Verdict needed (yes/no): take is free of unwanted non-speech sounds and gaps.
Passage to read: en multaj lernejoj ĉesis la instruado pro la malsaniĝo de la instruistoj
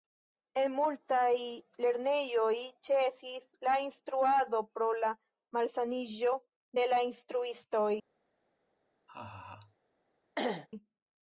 no